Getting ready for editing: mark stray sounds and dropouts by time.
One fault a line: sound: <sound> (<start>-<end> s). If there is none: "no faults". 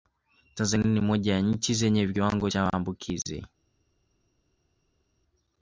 no faults